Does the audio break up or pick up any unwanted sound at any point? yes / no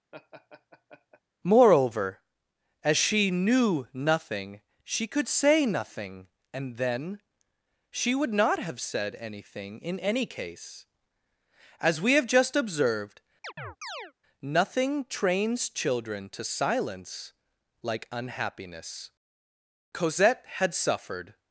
yes